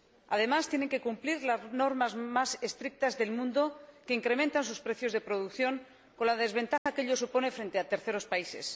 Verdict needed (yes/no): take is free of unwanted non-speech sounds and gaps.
no